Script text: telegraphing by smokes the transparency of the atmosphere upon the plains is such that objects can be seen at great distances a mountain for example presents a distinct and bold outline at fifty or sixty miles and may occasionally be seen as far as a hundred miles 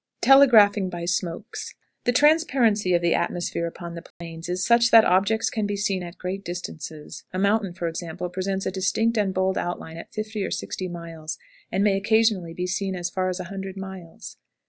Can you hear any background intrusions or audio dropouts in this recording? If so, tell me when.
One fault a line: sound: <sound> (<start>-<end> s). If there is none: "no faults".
sound: dropout (4.1-4.2 s)